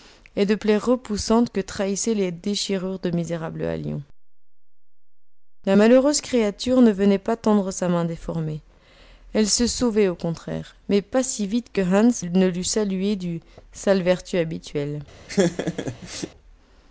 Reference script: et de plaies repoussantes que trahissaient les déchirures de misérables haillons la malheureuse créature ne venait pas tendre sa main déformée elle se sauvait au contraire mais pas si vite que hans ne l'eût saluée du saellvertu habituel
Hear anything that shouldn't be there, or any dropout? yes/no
yes